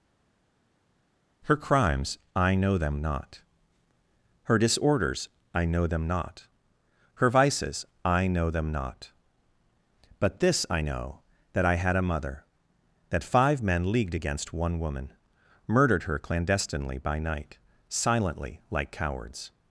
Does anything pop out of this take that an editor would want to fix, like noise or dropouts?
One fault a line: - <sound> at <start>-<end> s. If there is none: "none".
none